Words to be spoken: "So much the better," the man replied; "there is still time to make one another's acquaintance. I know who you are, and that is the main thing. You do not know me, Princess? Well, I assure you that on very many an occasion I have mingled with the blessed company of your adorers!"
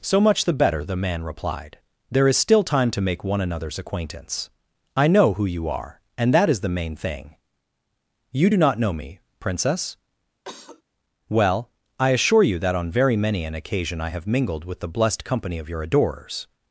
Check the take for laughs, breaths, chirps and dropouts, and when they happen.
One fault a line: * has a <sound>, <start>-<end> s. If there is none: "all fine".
* has a cough, 10.4-10.8 s